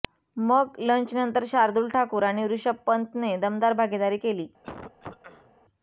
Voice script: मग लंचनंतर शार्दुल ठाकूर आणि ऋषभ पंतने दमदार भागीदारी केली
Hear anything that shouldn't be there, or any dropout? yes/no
yes